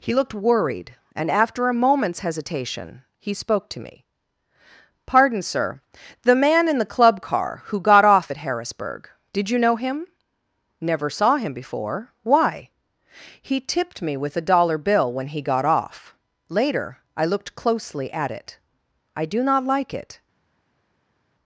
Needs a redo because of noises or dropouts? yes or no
no